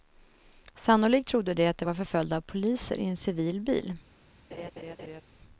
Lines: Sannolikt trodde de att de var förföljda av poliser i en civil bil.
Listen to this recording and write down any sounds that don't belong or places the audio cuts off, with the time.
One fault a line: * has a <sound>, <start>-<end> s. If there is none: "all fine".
* has a laugh, 4.5-5.2 s